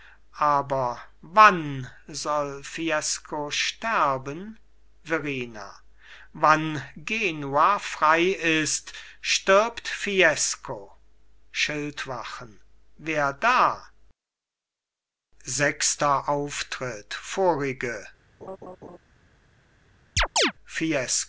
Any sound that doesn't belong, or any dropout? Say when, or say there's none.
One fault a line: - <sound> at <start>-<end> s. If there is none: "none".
- laugh at 18.4-19.0 s
- chirp at 20.2-20.5 s